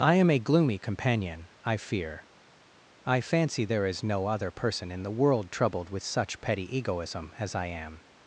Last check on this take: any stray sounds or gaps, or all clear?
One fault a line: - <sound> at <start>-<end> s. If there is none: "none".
none